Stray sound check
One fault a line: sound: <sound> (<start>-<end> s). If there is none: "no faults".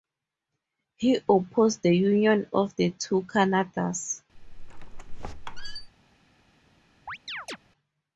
sound: squeak (4.4-5.9 s)
sound: chirp (7.1-7.6 s)